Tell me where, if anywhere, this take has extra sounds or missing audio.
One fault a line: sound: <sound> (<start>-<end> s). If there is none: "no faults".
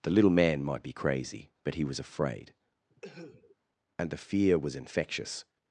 sound: cough (2.9-3.6 s)